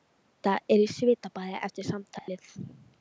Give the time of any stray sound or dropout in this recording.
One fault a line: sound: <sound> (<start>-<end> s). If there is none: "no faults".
sound: dropout (2.2-2.3 s)